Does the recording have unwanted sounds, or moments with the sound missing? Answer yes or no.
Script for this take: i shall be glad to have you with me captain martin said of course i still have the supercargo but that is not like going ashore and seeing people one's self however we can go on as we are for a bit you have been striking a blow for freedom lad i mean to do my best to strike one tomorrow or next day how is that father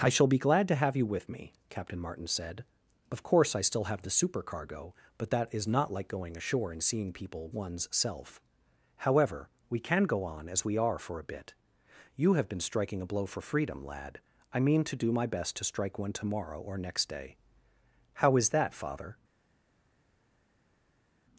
no